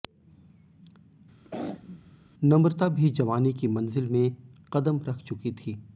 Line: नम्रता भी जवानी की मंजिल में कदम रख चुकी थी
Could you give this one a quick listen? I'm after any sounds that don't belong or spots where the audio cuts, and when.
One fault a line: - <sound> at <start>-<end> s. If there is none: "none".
- throat clearing at 1.4-2.1 s